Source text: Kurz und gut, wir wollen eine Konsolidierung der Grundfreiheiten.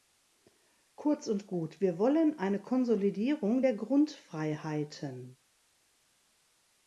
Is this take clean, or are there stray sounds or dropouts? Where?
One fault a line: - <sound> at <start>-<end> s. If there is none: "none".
none